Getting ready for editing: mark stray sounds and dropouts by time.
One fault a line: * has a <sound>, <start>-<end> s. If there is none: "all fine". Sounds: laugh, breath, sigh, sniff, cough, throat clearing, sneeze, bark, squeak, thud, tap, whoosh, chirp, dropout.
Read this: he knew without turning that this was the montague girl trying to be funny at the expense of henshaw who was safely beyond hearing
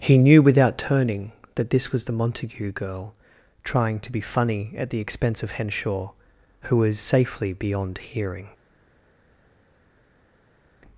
all fine